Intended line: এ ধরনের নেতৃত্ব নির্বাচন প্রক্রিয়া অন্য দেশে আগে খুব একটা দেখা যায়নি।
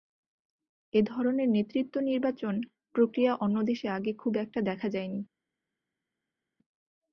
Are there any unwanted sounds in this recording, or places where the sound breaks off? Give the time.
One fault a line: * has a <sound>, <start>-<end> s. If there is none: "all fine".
all fine